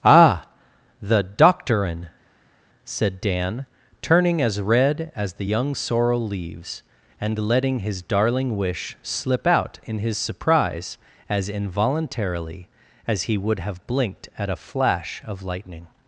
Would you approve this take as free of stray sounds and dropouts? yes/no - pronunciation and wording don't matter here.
yes